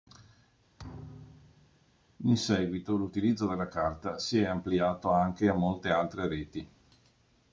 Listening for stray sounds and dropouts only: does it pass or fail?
fail